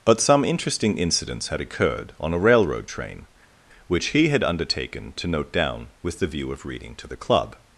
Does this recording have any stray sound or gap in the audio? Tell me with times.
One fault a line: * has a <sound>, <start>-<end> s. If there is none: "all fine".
all fine